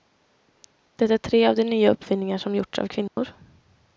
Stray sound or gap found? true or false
true